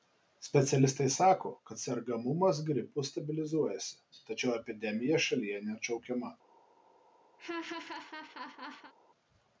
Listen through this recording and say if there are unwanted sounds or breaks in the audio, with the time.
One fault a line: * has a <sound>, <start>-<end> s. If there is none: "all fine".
* has a laugh, 7.4-8.9 s